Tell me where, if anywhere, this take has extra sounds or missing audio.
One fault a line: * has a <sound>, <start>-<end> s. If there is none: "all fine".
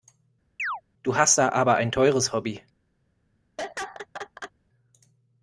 * has a chirp, 0.6-0.8 s
* has a laugh, 3.6-4.5 s